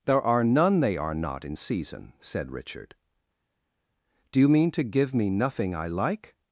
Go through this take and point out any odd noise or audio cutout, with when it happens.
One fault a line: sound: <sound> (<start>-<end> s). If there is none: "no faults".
no faults